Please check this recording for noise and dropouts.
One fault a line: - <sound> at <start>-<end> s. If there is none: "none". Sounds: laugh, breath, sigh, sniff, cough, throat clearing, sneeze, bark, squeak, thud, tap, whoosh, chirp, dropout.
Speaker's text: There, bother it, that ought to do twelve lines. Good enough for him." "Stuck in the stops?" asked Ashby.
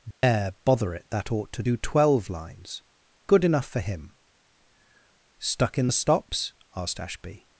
- dropout at 0.1-0.2 s